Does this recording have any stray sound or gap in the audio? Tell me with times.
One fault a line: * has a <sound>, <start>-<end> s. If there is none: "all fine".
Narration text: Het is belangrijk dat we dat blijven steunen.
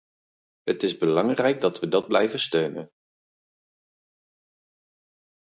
all fine